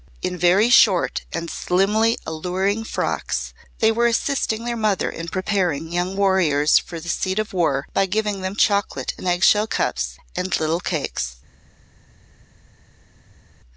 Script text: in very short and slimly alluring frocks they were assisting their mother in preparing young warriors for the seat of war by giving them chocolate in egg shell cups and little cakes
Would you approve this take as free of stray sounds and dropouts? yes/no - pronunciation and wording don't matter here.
yes